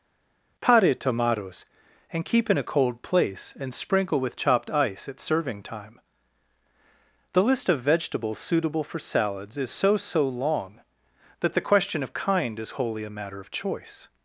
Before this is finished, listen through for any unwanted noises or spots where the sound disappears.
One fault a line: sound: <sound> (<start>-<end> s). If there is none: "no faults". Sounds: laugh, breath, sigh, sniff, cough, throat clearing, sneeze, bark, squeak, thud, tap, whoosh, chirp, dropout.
no faults